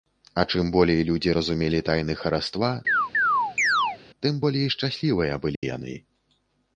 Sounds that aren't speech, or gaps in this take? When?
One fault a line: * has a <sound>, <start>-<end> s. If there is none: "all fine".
* has a chirp, 2.9-4.0 s
* has a dropout, 5.6-5.6 s